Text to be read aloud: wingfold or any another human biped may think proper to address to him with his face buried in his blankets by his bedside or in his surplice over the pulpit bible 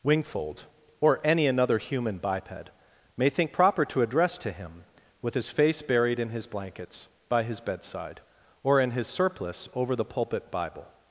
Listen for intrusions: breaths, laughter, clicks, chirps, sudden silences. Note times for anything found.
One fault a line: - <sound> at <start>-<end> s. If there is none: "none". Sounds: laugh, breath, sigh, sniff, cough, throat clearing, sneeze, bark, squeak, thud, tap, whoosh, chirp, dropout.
none